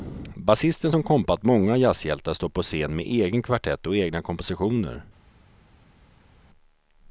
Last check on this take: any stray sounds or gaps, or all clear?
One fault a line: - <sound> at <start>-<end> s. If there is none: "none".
none